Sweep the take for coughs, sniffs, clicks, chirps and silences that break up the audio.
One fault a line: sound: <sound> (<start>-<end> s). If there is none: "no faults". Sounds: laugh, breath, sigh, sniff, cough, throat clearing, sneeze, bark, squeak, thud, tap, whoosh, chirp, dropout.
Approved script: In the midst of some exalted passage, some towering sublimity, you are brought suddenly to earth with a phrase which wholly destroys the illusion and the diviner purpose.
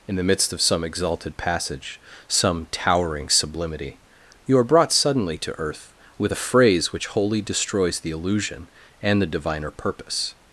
no faults